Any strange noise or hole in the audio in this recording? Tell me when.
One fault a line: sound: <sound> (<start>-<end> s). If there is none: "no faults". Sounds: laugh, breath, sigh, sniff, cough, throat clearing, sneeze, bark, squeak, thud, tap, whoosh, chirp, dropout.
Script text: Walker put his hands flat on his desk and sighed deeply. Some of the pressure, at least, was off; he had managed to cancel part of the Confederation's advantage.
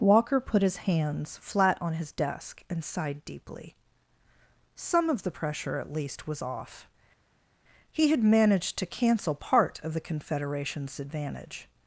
no faults